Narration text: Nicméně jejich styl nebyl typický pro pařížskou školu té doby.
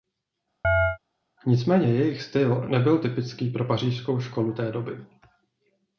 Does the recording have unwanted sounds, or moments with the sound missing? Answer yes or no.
yes